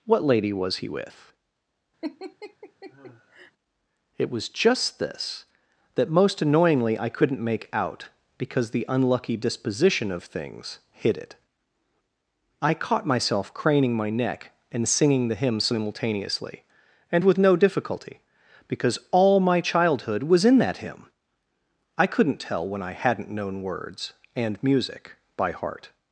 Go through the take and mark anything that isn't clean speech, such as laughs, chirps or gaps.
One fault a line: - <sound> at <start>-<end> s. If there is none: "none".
- laugh at 2.0-3.5 s